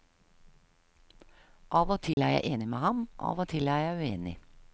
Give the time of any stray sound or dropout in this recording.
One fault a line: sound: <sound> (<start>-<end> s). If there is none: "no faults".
sound: dropout (2.1-2.2 s)